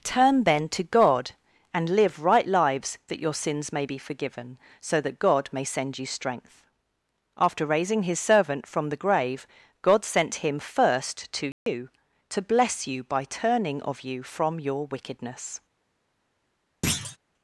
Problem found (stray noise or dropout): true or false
true